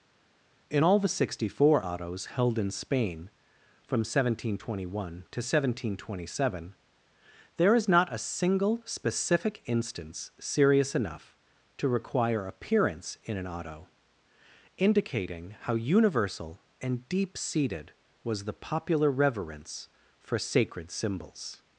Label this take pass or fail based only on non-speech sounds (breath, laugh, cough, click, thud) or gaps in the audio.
pass